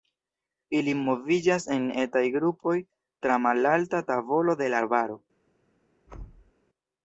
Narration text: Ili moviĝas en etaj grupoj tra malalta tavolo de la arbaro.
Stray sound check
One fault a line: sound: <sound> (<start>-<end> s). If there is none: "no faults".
sound: thud (6.1-6.5 s)